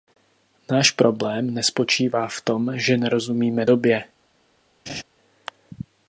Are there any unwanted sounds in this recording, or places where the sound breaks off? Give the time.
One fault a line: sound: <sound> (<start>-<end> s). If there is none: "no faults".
sound: laugh (4.9-5.0 s)